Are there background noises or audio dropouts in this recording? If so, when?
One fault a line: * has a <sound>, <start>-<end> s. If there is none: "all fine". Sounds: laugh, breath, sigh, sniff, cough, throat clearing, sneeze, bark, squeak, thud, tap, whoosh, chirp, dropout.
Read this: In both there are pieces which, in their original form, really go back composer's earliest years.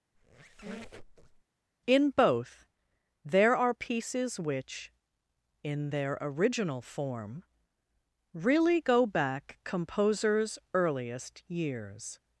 * has a squeak, 0.1-1.4 s